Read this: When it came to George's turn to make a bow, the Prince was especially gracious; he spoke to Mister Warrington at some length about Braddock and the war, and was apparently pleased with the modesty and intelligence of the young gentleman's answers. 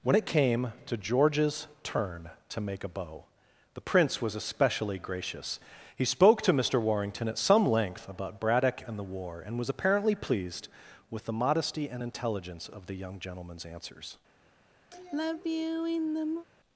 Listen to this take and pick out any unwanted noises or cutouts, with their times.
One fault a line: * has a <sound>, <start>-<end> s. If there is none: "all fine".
* has a sigh, 14.9-16.5 s